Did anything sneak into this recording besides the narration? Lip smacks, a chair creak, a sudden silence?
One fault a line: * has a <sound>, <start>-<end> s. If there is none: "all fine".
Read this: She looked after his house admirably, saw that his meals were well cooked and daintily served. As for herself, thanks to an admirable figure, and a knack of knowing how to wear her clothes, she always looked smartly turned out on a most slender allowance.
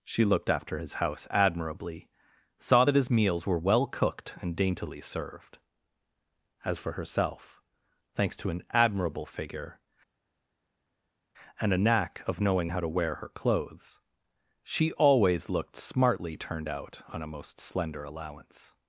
all fine